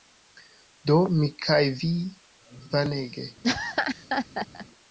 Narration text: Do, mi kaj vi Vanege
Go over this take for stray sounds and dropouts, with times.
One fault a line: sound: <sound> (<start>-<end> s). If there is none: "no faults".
sound: laugh (3.4-4.7 s)